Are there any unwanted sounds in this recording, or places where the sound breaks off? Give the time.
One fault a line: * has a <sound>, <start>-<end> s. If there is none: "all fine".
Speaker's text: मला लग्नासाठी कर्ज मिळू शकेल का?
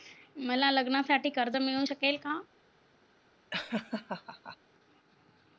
* has a laugh, 3.5-4.6 s